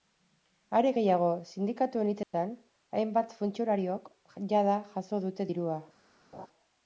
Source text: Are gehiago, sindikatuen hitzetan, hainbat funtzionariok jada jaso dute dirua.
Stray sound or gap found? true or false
true